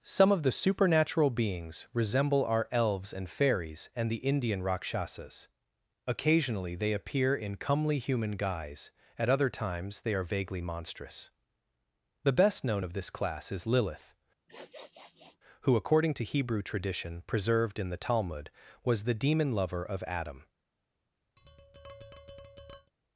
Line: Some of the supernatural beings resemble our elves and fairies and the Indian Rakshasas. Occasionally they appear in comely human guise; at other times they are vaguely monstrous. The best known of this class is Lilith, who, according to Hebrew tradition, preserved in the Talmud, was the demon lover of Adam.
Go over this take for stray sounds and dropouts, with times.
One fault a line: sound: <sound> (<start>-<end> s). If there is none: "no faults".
sound: sniff (14.5-15.4 s)
sound: tap (21.4-22.9 s)